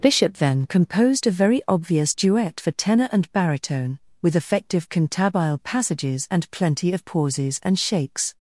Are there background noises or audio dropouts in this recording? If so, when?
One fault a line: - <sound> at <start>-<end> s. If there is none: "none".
none